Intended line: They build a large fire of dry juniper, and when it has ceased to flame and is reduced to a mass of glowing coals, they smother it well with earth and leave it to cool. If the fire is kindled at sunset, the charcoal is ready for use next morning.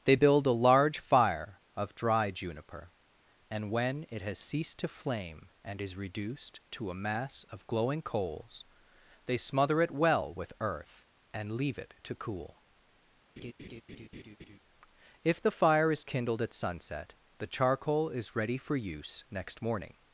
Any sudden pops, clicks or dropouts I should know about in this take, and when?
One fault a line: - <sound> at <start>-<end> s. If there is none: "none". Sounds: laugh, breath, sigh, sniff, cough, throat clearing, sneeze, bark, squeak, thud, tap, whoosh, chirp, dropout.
- laugh at 13.4-14.6 s